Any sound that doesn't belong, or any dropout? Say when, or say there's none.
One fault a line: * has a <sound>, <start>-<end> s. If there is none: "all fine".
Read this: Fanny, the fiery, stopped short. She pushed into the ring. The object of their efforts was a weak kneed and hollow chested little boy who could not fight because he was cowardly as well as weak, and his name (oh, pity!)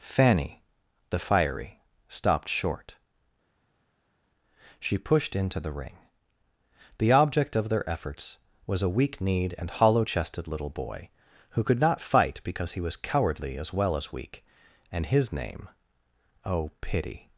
all fine